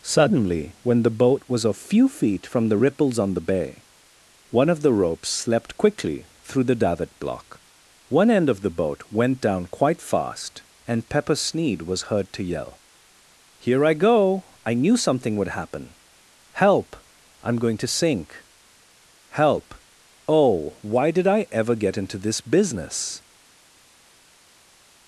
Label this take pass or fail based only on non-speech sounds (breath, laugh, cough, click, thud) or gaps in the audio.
pass